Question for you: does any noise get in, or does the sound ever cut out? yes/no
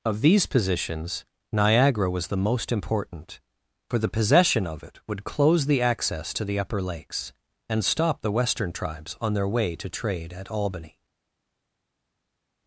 no